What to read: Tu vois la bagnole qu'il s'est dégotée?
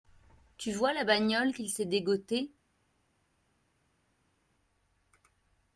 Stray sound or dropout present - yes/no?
no